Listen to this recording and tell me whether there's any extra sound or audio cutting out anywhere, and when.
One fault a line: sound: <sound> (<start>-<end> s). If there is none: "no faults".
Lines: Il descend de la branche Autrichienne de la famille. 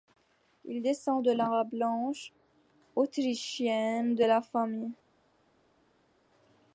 no faults